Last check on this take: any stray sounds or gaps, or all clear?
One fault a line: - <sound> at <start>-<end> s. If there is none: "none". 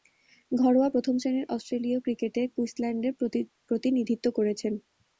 none